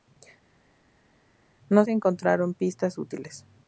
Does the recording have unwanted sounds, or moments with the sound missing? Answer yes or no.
no